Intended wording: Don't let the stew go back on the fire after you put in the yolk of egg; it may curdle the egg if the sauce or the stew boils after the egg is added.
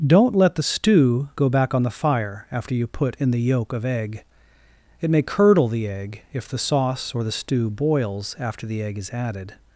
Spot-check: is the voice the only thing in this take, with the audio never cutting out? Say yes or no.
yes